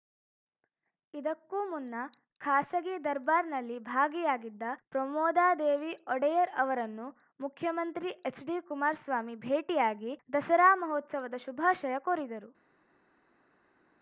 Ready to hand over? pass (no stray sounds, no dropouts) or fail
pass